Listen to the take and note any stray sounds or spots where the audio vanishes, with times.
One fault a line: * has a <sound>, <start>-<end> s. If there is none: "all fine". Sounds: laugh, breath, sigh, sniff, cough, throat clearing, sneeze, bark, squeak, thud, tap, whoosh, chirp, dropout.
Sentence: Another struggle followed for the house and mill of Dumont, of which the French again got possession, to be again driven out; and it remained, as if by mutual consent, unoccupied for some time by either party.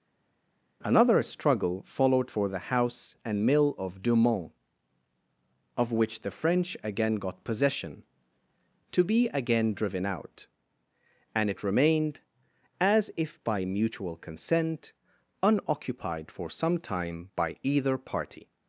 all fine